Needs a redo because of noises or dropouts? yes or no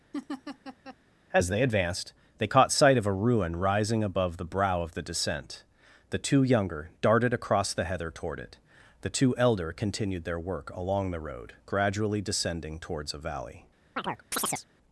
yes